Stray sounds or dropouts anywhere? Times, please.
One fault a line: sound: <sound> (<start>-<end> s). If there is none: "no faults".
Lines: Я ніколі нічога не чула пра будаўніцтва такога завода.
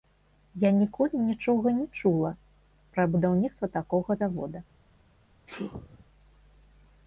sound: sneeze (5.5-6.1 s)